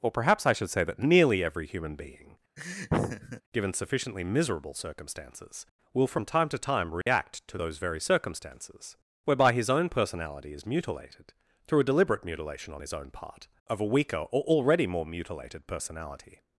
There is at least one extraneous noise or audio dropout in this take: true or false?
true